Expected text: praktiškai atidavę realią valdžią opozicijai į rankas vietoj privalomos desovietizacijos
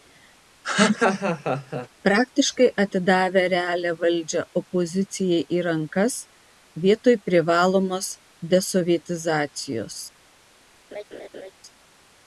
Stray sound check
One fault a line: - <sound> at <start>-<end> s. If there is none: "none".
- laugh at 0.6-1.9 s
- laugh at 10.9-11.5 s